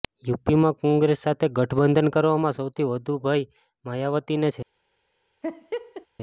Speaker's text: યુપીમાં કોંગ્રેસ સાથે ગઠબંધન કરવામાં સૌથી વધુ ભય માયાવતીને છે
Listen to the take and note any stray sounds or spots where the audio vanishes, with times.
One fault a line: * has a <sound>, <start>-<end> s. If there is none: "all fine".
* has a laugh, 5.4-6.1 s